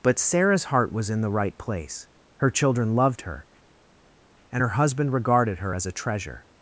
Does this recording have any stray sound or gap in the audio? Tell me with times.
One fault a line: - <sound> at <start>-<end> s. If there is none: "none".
none